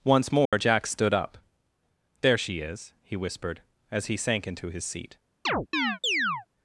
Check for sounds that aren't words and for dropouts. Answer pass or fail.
fail